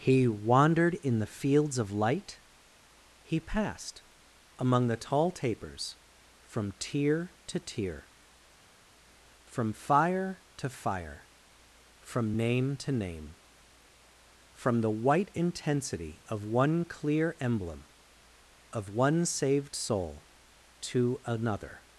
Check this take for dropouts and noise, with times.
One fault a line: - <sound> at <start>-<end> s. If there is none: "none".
none